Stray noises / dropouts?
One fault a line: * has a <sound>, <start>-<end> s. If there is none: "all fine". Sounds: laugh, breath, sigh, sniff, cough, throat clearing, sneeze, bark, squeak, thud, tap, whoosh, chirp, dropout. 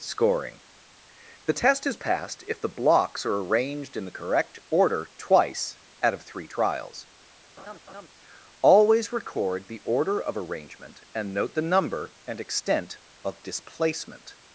* has a laugh, 7.6-8.1 s